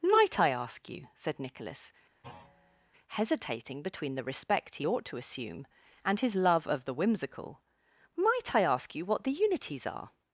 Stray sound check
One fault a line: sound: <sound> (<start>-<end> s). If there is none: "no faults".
sound: thud (2.2-2.9 s)